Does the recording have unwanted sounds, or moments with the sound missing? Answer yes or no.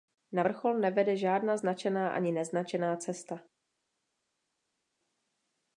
no